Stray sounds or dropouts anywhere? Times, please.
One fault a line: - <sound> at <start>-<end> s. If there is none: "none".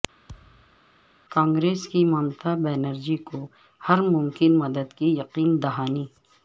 - thud at 0.3-0.8 s